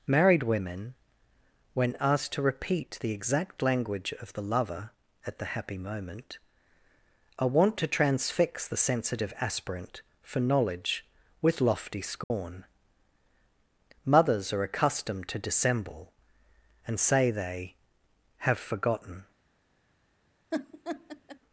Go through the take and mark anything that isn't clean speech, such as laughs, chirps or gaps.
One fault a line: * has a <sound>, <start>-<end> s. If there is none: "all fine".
* has a dropout, 12.2-12.3 s
* has a laugh, 20.5-21.4 s